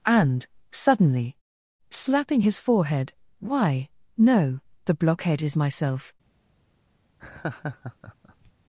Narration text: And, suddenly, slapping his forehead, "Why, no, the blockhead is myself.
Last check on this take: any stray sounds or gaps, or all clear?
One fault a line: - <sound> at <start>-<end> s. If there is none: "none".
- laugh at 7.2-8.5 s